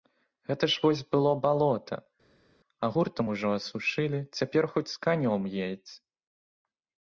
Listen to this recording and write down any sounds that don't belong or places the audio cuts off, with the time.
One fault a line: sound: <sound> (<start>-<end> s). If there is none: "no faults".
no faults